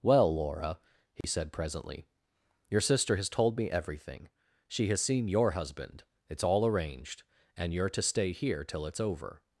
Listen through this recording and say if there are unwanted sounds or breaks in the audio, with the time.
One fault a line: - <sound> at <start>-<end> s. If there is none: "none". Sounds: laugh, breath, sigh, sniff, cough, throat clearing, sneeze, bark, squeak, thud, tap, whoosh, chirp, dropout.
- dropout at 1.2-1.2 s